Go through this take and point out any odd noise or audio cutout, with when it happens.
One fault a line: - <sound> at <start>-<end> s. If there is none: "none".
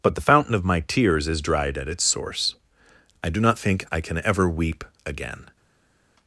none